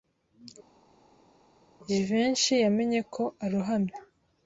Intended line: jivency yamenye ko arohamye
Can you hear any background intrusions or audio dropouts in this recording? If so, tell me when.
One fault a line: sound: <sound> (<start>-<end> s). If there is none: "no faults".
no faults